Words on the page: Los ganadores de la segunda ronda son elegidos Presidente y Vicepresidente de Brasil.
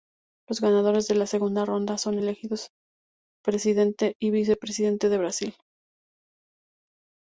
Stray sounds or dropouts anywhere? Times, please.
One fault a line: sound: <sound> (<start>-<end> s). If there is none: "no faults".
no faults